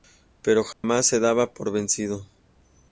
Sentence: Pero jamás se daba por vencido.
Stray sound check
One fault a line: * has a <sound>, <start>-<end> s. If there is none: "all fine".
* has a dropout, 0.7-0.8 s